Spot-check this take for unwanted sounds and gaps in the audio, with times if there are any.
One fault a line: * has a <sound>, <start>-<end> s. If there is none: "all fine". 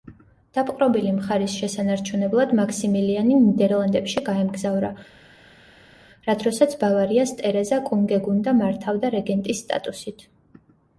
all fine